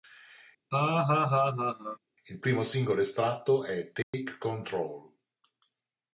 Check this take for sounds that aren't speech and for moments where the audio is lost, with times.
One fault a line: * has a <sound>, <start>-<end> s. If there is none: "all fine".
* has a laugh, 0.7-2.0 s
* has a dropout, 4.0-4.1 s